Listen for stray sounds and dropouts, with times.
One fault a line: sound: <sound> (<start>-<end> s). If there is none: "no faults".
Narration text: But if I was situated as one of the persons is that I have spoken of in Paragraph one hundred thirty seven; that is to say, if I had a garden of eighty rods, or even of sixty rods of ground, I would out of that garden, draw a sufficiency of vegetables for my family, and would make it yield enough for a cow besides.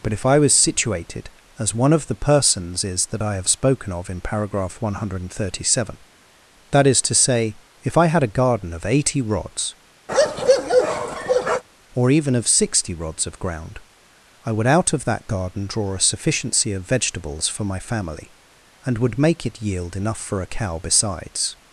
sound: bark (10.1-11.6 s)